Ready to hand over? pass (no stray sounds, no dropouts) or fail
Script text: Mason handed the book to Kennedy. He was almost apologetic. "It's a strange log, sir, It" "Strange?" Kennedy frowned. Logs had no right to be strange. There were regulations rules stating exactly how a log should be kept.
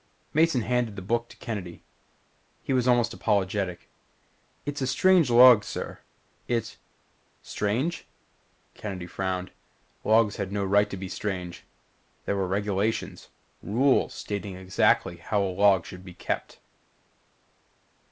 pass